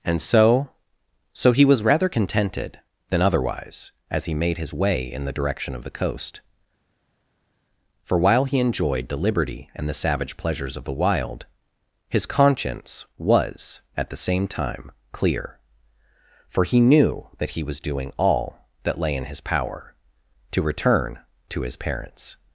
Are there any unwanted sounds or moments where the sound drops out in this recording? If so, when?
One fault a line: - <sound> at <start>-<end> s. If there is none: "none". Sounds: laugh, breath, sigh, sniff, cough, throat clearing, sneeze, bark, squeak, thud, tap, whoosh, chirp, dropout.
none